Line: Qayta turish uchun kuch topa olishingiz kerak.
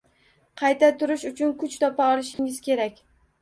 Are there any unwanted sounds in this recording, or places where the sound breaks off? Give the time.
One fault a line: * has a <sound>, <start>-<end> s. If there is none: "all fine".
* has a dropout, 2.3-2.4 s